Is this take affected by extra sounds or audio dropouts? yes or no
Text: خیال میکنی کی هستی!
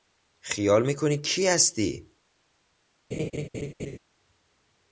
yes